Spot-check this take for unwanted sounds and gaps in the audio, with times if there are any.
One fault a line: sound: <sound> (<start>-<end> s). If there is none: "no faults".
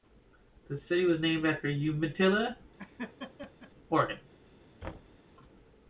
sound: laugh (2.8-3.7 s)
sound: thud (4.8-5.2 s)